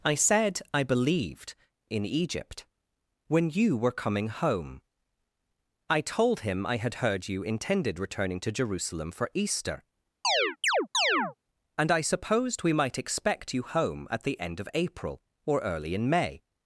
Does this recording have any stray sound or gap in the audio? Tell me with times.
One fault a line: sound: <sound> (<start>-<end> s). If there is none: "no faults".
sound: chirp (10.2-11.3 s)